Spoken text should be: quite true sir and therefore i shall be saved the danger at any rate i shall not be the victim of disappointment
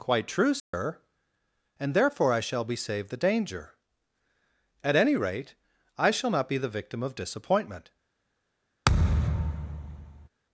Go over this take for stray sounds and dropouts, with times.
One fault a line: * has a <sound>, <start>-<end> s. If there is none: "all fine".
* has a dropout, 0.6-0.7 s
* has a thud, 8.8-10.3 s